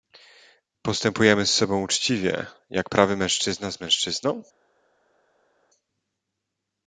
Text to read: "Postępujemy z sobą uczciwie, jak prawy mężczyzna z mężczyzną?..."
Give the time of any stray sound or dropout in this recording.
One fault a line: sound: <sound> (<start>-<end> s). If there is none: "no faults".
no faults